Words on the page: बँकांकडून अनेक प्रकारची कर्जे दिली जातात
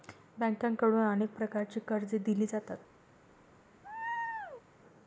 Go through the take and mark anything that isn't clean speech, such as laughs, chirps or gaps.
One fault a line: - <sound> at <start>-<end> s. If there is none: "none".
- laugh at 3.8-4.6 s